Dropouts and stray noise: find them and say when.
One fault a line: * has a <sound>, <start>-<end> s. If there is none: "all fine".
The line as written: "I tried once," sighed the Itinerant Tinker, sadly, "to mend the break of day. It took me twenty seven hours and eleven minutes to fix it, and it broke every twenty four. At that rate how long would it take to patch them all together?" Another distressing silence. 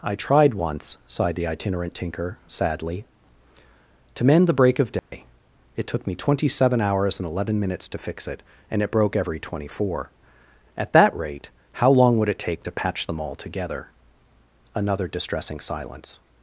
* has a dropout, 5.0-5.1 s